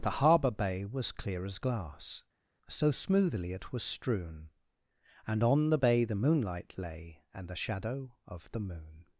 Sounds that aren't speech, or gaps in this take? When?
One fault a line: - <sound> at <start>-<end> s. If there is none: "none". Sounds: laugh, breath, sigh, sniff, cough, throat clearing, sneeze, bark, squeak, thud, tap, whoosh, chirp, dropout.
none